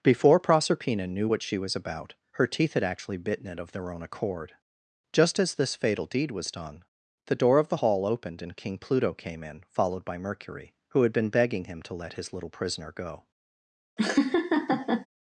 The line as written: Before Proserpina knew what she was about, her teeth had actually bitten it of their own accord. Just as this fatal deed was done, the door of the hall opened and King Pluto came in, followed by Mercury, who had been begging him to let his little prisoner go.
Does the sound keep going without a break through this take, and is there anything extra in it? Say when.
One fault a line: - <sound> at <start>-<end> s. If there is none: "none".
- laugh at 14.0-15.1 s